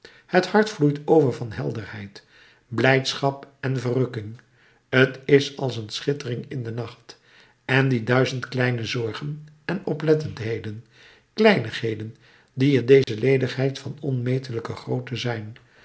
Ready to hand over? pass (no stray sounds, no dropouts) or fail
fail